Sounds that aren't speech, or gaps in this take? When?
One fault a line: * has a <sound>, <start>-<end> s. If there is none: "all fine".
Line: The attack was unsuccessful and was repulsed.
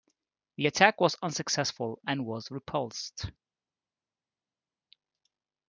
all fine